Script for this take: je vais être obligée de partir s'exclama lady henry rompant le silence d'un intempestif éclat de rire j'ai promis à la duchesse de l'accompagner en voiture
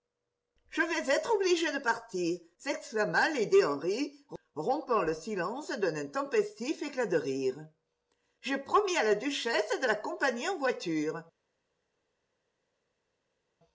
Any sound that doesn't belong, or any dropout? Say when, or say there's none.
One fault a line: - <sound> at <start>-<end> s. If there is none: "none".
none